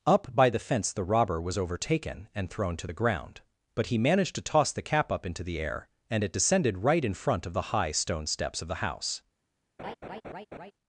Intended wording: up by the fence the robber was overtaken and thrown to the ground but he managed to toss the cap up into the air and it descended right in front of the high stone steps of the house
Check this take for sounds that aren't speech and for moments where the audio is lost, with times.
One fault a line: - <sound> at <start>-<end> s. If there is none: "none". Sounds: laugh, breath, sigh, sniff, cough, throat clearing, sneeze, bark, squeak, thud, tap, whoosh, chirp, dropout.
- laugh at 9.8-10.7 s